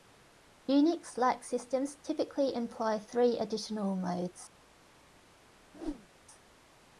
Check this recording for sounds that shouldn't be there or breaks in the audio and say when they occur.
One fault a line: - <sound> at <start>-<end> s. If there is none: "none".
- whoosh at 5.7-6.1 s